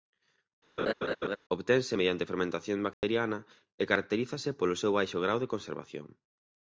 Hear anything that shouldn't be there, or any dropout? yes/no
yes